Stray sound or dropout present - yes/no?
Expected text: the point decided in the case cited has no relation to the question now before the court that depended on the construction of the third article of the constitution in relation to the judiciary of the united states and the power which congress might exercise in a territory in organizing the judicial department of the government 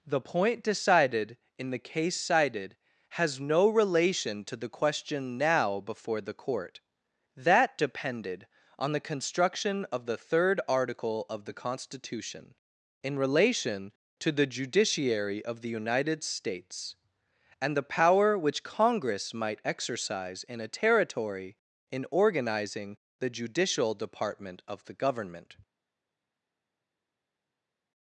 no